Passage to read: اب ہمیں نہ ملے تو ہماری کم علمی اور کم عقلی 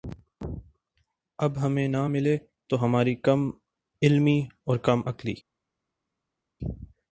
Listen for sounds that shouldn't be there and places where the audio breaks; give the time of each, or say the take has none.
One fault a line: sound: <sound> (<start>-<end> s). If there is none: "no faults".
no faults